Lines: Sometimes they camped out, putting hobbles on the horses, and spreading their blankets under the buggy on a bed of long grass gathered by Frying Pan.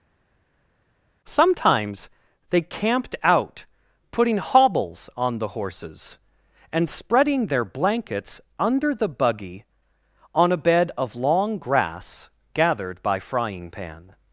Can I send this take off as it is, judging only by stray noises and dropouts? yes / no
yes